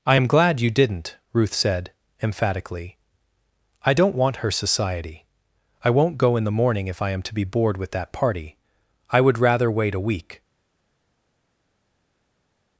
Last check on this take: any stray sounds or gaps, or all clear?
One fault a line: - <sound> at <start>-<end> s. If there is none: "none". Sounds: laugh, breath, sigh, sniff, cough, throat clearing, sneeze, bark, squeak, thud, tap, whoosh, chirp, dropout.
none